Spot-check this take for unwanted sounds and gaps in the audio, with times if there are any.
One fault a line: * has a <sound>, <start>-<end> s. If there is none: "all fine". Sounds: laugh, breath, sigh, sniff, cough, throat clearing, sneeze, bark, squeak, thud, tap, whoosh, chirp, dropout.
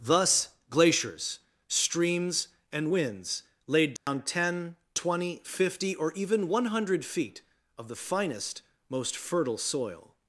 * has a dropout, 4.0-4.1 s